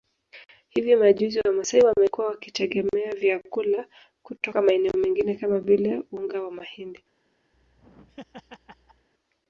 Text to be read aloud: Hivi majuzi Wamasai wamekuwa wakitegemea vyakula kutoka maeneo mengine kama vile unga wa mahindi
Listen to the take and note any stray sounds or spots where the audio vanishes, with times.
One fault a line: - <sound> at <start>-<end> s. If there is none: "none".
- laugh at 7.5-9.1 s